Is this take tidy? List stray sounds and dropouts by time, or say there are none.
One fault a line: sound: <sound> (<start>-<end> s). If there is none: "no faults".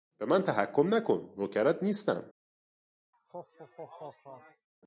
sound: laugh (3.1-4.7 s)